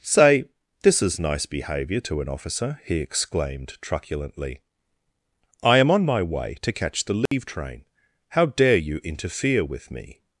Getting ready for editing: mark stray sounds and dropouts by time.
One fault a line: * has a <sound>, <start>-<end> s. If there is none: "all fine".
* has a dropout, 7.3-7.3 s